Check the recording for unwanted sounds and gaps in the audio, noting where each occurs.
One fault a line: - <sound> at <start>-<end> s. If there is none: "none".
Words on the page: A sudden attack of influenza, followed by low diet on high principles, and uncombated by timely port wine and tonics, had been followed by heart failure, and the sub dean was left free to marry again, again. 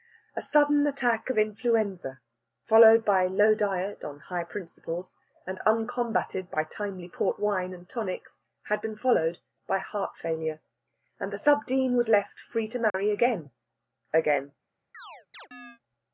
- dropout at 12.9-12.9 s
- chirp at 14.9-15.8 s